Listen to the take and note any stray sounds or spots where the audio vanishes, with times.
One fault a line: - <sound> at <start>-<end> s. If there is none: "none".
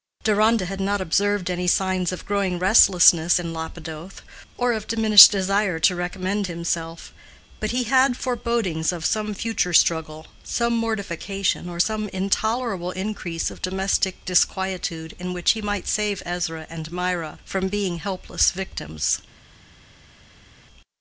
none